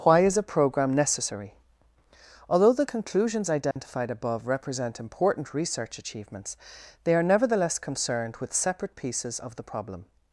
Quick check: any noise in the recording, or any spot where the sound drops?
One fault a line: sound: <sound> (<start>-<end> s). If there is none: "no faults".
sound: dropout (3.7-3.8 s)